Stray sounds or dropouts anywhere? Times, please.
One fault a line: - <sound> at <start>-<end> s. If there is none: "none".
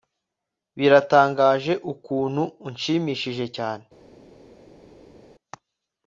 none